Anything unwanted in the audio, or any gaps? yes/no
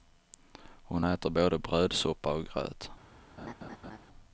yes